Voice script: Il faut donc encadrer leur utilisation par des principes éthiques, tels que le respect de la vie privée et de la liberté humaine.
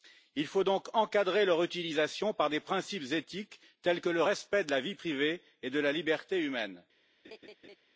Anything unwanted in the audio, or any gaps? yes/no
yes